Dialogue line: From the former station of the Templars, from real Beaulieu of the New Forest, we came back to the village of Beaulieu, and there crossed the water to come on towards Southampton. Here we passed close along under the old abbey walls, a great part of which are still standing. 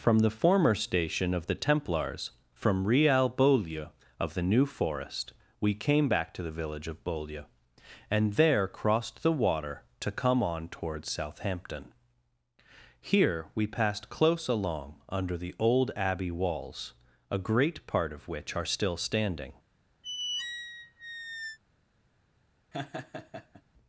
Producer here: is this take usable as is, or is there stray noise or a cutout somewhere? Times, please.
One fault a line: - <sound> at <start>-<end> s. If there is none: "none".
- squeak at 20.0-21.6 s
- laugh at 22.7-23.6 s